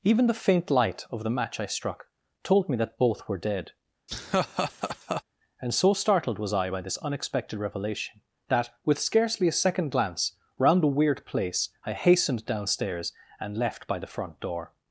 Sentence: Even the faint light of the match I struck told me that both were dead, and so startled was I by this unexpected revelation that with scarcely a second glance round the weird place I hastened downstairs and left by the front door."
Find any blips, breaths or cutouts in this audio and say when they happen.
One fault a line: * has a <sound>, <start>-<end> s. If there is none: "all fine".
* has a laugh, 4.1-5.2 s